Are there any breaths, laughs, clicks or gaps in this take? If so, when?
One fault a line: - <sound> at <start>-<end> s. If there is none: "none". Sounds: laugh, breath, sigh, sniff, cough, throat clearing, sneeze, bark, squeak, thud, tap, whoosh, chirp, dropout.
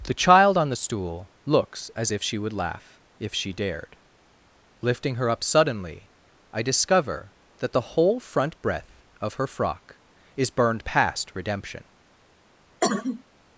- cough at 12.8-13.2 s